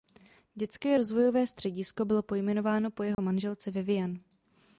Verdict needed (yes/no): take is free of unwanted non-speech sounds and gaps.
no